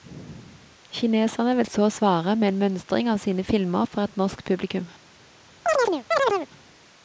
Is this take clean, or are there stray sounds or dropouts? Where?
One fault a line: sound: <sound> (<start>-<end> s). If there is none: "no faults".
sound: chirp (5.7-6.5 s)